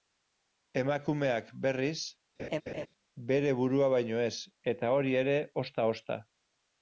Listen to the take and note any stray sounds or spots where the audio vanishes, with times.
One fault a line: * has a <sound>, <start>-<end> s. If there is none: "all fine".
* has a laugh, 2.4-2.9 s